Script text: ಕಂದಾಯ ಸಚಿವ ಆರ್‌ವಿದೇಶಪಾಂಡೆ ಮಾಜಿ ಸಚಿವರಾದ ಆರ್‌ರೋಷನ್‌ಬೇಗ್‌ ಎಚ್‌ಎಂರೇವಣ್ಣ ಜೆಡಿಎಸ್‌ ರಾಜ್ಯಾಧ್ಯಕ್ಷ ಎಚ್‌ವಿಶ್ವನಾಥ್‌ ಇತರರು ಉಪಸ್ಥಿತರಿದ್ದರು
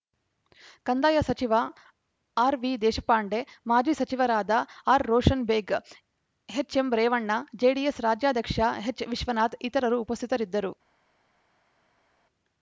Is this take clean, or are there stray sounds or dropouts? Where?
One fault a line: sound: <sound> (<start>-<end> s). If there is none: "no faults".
no faults